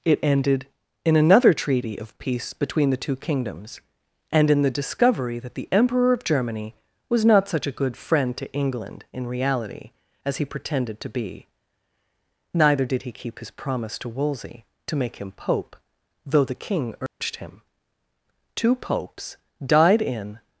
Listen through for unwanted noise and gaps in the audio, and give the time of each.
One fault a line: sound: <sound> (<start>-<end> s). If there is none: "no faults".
sound: dropout (17.1-17.2 s)